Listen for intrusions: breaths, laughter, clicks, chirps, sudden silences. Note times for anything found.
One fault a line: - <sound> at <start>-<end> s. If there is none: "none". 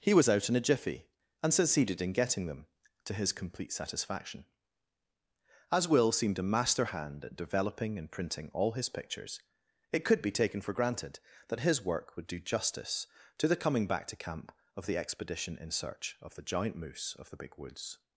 none